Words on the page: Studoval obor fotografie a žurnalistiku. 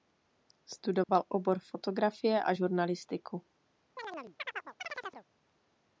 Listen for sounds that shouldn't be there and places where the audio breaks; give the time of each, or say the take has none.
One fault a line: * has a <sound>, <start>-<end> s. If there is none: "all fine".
* has a dropout, 1.0-1.1 s
* has a chirp, 4.0-5.3 s